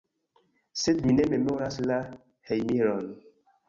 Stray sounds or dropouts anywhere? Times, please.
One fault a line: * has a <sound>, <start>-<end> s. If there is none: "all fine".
all fine